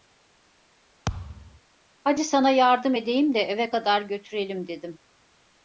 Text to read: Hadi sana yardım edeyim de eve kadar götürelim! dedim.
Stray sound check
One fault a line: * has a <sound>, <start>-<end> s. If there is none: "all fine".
* has a thud, 1.1-1.6 s